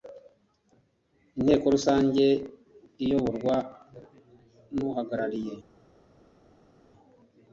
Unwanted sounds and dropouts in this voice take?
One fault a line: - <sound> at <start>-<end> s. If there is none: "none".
none